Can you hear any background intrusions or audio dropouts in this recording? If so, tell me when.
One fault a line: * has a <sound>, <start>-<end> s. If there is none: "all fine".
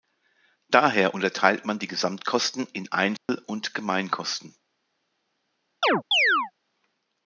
* has a dropout, 3.2-3.3 s
* has a chirp, 5.8-6.5 s